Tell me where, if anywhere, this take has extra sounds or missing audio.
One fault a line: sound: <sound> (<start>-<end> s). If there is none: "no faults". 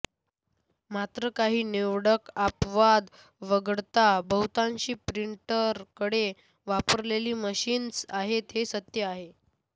no faults